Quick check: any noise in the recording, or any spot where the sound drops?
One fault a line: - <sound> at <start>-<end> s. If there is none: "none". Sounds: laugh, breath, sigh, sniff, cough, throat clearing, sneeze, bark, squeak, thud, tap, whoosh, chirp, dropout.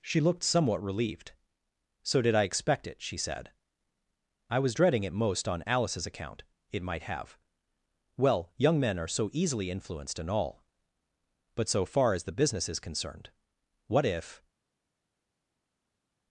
none